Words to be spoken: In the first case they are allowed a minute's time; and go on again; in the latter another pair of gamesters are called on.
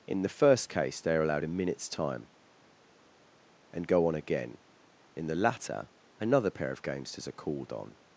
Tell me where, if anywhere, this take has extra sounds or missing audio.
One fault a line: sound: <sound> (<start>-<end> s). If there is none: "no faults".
no faults